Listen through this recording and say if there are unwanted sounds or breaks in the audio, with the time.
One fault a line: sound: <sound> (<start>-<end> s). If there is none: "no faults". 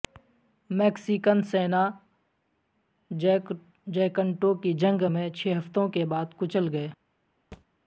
sound: thud (7.5-7.7 s)